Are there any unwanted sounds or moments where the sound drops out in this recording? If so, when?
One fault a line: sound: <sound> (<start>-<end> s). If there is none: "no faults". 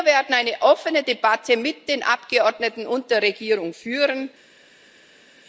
no faults